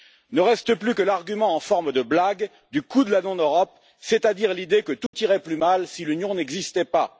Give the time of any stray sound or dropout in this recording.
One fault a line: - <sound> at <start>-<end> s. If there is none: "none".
- dropout at 5.1-5.1 s